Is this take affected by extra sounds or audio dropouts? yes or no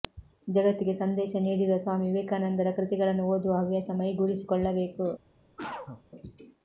yes